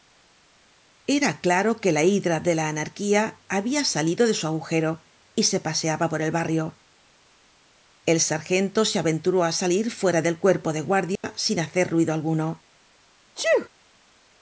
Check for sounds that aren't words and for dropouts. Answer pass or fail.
fail